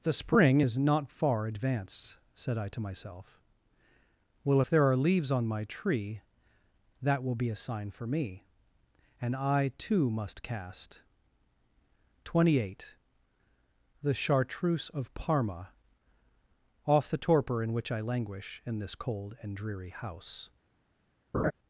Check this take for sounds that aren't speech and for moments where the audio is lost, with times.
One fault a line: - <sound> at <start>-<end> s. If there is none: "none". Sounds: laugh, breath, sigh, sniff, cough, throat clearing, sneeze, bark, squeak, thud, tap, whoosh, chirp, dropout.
- laugh at 21.3-21.5 s